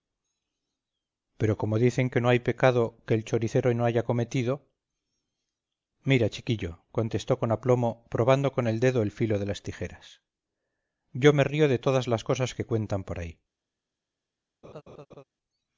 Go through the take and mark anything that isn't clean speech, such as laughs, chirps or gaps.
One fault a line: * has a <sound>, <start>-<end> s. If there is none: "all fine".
* has a laugh, 14.6-15.2 s